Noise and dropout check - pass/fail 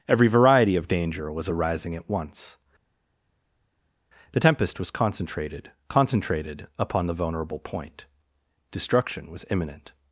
pass